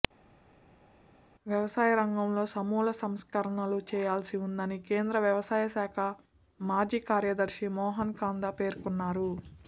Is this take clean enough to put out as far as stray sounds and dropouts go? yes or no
yes